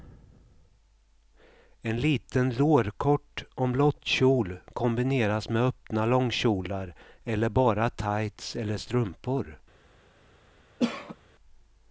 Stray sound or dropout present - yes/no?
yes